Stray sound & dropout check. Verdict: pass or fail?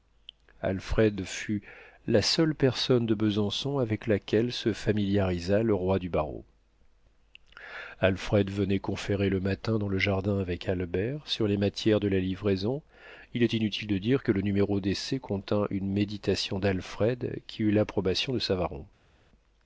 pass